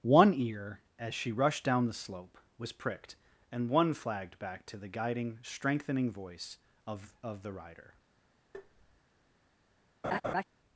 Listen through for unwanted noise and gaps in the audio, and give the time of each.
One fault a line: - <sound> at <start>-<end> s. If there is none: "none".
- tap at 8.5-9.0 s
- laugh at 10.0-10.4 s